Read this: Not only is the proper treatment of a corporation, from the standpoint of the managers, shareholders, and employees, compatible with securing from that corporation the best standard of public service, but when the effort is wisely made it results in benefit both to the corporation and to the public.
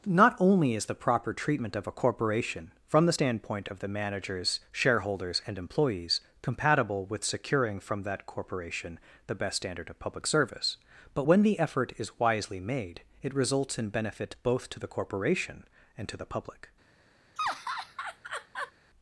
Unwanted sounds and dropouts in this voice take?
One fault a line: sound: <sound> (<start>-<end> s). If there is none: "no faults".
sound: laugh (17.4-18.7 s)